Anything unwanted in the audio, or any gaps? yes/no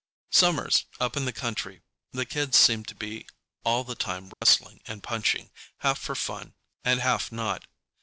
yes